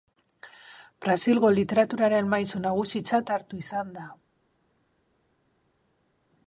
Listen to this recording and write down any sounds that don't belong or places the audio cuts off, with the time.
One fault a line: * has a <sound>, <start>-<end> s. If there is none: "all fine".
all fine